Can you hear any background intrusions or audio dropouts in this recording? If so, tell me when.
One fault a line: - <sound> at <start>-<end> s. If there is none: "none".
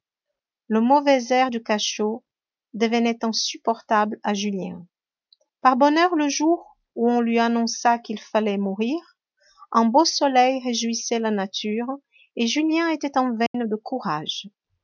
- dropout at 13.5-13.5 s